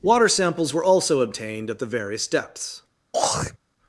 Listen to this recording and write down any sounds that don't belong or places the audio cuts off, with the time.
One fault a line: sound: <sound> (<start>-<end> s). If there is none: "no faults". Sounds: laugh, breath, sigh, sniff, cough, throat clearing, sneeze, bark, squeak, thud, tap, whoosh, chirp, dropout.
sound: throat clearing (3.1-3.6 s)